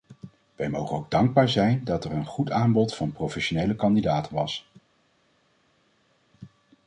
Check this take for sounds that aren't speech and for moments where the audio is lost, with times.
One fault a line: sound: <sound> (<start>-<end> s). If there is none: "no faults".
no faults